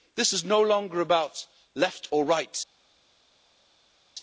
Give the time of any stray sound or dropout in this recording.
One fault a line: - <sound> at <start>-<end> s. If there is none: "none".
none